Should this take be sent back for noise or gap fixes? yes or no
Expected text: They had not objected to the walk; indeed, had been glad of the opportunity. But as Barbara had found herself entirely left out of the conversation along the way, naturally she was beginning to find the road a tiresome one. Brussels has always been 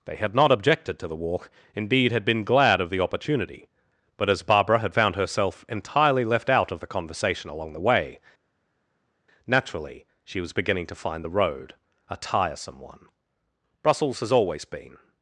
no